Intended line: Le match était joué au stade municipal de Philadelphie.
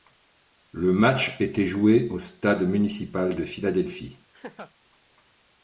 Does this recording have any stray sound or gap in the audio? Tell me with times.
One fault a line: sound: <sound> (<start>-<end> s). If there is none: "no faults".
sound: laugh (4.3-4.7 s)